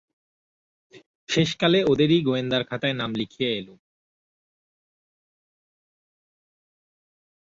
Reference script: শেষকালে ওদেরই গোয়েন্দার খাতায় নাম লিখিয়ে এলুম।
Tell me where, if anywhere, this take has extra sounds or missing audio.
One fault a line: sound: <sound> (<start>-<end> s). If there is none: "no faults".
no faults